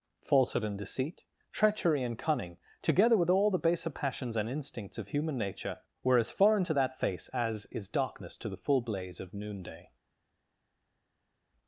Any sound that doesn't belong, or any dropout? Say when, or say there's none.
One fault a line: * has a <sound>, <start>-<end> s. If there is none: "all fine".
all fine